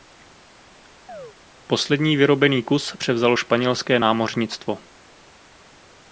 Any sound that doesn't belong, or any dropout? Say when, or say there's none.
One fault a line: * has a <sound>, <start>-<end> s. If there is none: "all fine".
* has a chirp, 1.1-1.4 s